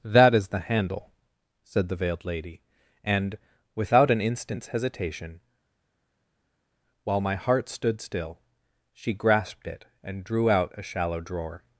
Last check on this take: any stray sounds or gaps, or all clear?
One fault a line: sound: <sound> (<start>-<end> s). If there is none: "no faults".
no faults